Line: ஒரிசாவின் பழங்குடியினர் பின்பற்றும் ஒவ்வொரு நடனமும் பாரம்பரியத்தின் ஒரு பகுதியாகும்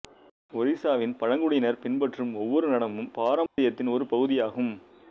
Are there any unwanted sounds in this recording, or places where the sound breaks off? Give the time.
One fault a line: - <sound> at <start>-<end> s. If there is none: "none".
- dropout at 3.5-3.6 s